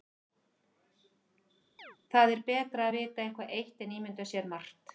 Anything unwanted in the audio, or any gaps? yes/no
yes